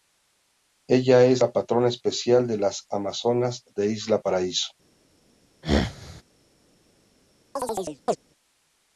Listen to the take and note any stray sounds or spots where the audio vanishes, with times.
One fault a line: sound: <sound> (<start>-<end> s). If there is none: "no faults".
sound: throat clearing (5.6-6.2 s)
sound: chirp (7.6-8.2 s)